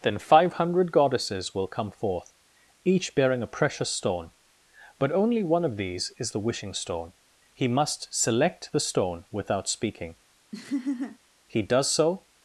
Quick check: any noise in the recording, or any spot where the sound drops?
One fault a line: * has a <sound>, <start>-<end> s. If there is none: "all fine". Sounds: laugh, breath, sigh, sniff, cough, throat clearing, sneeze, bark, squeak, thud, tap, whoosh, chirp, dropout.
* has a laugh, 10.5-11.2 s